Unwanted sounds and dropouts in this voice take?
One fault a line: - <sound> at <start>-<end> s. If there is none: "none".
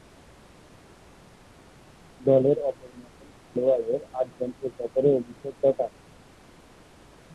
none